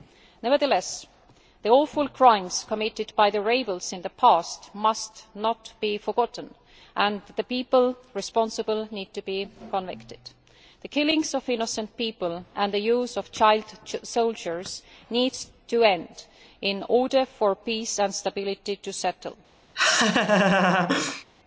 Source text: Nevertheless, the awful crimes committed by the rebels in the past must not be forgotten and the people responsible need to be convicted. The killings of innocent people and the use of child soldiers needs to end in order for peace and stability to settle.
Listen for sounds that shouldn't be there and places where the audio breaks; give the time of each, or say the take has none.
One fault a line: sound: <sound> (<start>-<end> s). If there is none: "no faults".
sound: laugh (19.7-21.2 s)